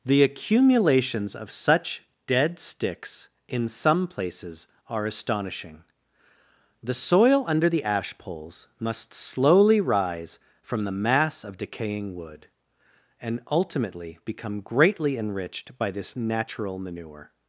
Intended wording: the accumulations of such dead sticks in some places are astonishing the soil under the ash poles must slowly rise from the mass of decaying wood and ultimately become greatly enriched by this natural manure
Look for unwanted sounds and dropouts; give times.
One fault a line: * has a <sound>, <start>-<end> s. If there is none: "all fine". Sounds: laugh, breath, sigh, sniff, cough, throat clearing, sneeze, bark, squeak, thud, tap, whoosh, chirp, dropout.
all fine